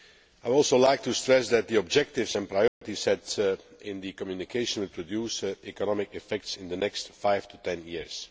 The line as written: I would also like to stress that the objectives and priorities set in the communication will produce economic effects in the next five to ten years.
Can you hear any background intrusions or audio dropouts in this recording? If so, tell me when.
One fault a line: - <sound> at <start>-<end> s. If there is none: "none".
- dropout at 2.7-2.8 s